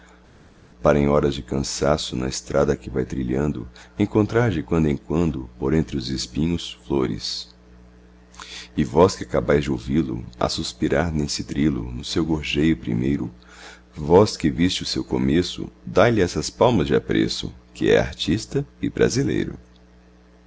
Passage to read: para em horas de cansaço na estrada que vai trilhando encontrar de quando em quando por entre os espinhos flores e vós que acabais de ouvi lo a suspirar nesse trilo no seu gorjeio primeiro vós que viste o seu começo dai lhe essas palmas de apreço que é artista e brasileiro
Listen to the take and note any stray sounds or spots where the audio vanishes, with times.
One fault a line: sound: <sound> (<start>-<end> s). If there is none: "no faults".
no faults